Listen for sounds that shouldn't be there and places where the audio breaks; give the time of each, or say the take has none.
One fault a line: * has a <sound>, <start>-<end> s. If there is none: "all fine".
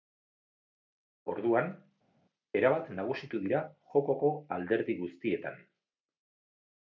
all fine